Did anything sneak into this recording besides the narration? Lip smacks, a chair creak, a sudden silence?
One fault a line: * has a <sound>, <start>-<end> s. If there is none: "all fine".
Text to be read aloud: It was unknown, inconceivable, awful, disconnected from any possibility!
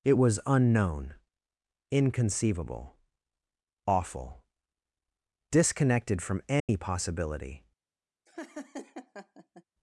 * has a dropout, 6.6-6.7 s
* has a laugh, 8.3-9.6 s